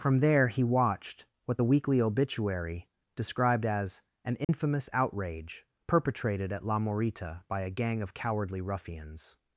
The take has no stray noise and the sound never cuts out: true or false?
false